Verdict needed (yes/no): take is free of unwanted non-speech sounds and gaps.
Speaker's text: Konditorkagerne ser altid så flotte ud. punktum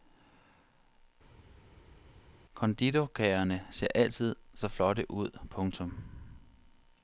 yes